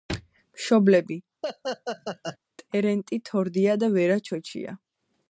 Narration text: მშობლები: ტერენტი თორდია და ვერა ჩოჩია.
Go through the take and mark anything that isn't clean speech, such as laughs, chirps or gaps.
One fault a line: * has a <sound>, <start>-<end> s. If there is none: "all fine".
* has a laugh, 1.4-2.4 s